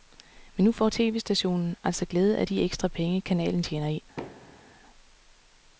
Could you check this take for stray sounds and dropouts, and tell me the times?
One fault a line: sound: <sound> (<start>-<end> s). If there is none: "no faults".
sound: thud (4.2-4.8 s)